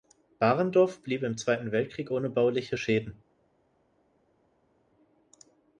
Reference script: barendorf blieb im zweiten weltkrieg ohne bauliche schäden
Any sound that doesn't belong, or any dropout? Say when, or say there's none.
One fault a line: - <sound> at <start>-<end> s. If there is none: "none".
none